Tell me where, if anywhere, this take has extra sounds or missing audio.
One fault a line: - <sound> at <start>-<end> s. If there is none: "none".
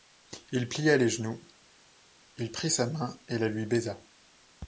none